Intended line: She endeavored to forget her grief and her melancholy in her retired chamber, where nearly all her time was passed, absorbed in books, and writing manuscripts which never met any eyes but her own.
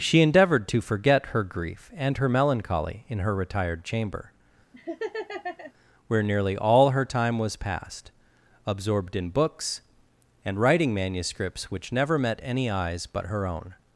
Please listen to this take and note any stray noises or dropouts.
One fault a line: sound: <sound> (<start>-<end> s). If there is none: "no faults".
sound: laugh (4.7-5.7 s)